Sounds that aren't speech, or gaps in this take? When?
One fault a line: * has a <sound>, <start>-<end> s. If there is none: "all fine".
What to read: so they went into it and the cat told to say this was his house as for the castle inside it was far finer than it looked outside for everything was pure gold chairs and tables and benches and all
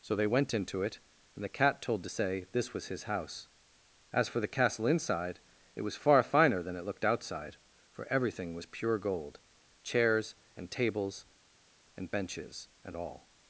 all fine